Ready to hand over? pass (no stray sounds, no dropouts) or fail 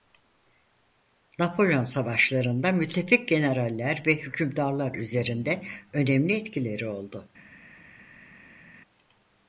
pass